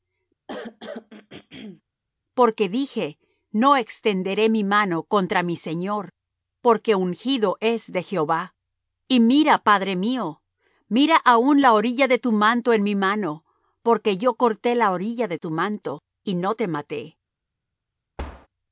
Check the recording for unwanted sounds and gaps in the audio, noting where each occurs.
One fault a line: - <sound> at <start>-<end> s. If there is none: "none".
- throat clearing at 0.5-1.8 s
- thud at 18.2-18.5 s